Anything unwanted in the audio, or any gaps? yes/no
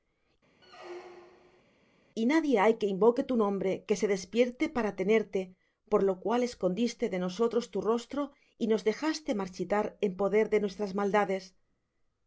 yes